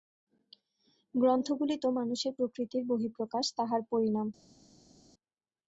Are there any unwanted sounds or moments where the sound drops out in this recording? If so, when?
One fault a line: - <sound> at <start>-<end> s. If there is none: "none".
none